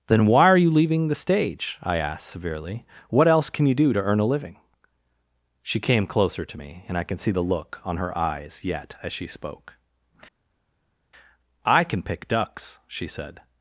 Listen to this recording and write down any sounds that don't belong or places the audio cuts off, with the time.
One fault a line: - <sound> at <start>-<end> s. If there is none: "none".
none